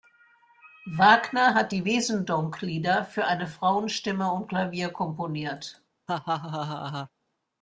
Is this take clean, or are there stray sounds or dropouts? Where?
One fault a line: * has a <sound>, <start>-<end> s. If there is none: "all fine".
* has a laugh, 6.1-7.1 s